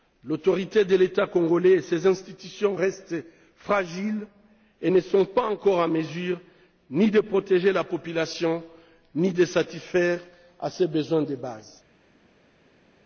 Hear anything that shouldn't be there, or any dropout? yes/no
no